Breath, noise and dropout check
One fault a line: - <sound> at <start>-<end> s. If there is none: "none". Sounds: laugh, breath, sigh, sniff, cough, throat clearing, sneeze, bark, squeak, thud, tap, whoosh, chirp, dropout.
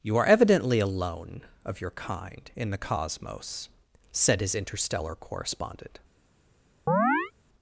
- chirp at 6.9-7.3 s